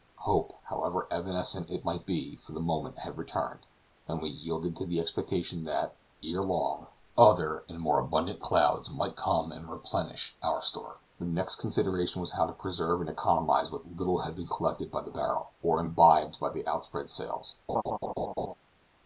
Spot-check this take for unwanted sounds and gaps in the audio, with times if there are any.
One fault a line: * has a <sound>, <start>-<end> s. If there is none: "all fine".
* has a laugh, 17.7-18.5 s